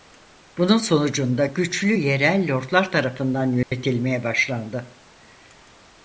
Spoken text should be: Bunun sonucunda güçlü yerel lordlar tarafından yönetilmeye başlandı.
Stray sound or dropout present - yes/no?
yes